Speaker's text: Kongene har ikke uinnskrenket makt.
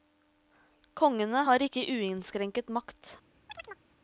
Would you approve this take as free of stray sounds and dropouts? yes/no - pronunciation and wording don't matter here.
no